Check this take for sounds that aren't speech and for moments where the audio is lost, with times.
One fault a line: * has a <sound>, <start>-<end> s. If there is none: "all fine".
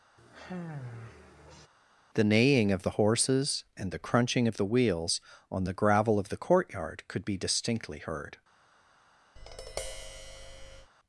* has a sigh, 0.2-1.7 s
* has a tap, 9.4-10.9 s